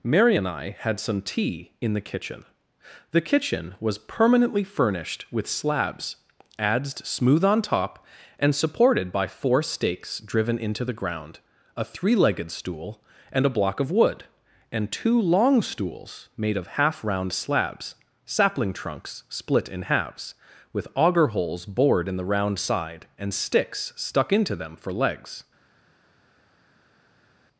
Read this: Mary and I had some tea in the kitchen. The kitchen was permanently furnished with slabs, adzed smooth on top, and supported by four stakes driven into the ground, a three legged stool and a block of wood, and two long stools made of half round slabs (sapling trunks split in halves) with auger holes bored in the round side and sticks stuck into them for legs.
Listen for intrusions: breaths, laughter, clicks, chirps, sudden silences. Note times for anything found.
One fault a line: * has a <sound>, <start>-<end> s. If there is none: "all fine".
all fine